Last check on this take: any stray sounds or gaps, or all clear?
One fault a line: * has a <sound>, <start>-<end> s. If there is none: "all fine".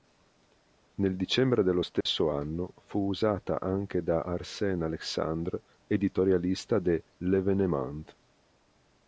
* has a dropout, 2.0-2.1 s